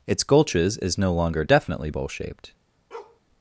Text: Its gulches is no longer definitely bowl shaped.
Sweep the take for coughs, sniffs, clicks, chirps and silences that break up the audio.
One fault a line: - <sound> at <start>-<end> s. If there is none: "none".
- bark at 2.9-3.2 s